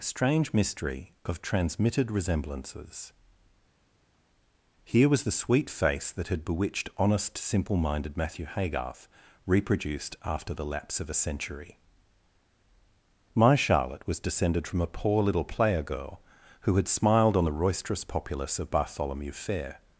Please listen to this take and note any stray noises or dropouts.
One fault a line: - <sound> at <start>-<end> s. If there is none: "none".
none